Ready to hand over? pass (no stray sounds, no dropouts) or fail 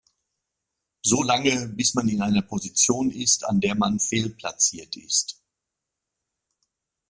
pass